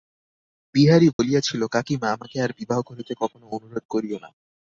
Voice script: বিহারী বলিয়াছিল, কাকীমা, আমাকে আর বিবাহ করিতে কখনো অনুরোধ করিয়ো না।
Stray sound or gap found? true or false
true